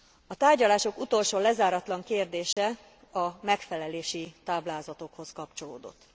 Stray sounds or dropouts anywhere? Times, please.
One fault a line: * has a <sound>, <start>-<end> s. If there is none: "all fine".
* has a dropout, 2.5-2.6 s